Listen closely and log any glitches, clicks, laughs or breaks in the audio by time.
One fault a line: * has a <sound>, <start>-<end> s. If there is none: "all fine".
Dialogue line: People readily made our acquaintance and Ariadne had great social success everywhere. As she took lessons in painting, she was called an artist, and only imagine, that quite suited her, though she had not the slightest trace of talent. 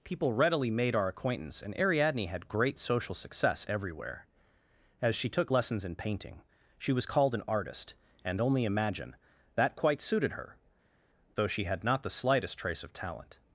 all fine